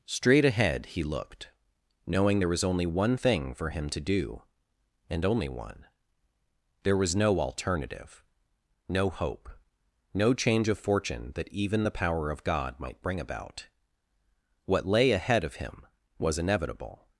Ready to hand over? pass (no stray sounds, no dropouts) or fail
pass